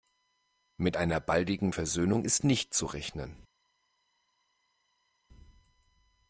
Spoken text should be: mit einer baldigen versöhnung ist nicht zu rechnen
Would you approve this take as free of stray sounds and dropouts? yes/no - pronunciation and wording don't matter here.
yes